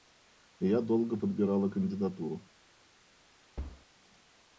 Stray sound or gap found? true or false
true